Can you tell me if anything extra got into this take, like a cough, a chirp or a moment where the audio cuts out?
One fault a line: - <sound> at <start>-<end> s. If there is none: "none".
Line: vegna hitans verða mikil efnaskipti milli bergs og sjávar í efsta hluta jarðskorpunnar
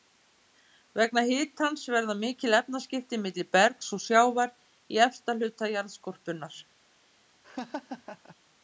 - laugh at 7.4-8.4 s